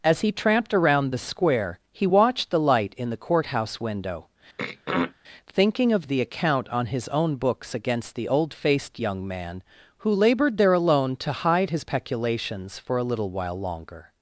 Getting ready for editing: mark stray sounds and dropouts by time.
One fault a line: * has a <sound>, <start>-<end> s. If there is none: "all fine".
* has a throat clearing, 4.6-5.1 s